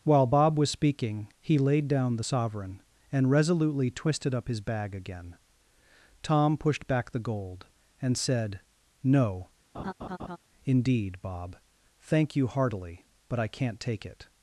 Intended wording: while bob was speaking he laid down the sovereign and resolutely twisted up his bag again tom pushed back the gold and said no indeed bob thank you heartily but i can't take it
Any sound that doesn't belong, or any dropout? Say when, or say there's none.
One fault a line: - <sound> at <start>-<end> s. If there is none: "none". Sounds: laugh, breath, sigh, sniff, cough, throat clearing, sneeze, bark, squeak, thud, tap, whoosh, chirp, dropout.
- laugh at 9.7-10.4 s